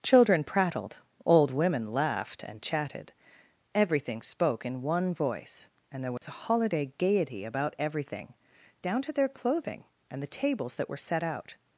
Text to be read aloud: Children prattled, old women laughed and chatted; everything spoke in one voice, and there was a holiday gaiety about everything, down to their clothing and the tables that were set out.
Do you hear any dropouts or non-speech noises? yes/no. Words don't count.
yes